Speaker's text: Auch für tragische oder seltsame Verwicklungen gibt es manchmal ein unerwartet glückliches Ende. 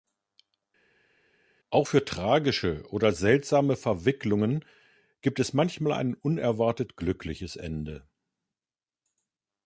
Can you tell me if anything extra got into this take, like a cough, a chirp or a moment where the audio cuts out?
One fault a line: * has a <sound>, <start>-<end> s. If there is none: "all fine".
all fine